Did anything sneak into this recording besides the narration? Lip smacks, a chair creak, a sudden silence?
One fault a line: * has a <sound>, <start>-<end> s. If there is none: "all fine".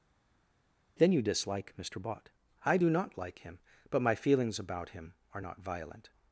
all fine